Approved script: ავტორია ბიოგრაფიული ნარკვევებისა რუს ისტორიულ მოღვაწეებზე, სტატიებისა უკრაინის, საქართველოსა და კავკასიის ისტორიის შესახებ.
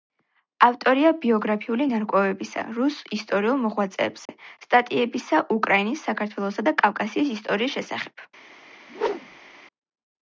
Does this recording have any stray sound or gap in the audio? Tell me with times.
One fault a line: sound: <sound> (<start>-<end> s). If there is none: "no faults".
sound: dropout (4.3-4.3 s)
sound: whoosh (8.9-9.6 s)